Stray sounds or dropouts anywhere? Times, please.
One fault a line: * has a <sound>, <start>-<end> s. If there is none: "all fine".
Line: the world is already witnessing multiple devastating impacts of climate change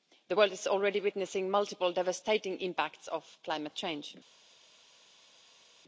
all fine